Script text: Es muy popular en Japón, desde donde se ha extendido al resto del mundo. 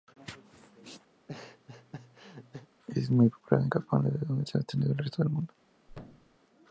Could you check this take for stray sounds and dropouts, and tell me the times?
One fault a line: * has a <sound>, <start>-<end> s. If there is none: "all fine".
* has a laugh, 1.1-2.7 s
* has a thud, 5.9-6.4 s